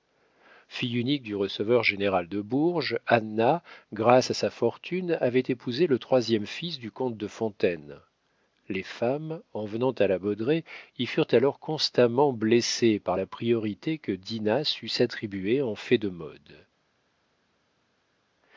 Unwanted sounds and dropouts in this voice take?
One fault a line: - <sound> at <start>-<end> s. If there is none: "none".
none